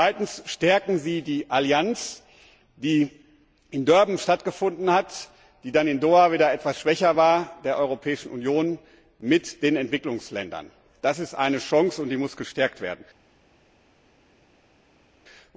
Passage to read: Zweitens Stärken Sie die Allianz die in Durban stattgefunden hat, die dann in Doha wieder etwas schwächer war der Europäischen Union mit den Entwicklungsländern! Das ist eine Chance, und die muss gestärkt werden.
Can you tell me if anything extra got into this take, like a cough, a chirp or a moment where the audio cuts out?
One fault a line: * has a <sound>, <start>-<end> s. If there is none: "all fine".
all fine